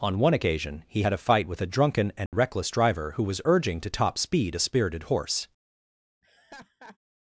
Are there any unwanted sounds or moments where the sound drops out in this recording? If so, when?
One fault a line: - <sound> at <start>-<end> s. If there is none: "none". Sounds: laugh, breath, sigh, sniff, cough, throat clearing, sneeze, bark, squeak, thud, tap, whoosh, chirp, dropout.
- dropout at 2.3-2.3 s
- laugh at 6.2-7.0 s